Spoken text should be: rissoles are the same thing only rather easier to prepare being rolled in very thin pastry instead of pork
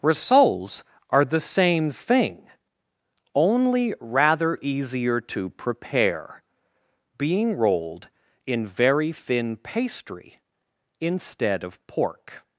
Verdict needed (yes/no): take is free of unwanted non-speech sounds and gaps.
yes